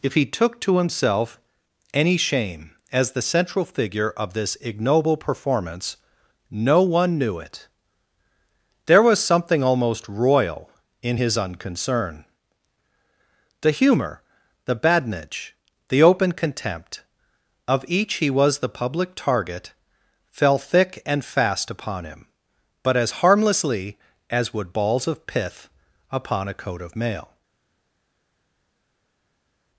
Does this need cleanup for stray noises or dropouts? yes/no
no